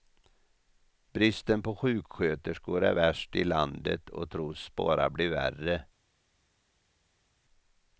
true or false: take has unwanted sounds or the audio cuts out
false